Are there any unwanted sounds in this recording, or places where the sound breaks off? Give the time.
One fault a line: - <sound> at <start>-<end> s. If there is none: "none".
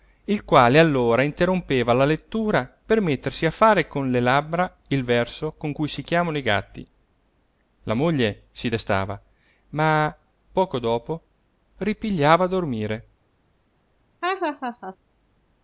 - laugh at 14.2-15.0 s